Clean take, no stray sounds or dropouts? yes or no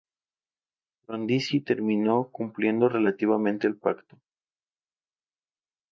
yes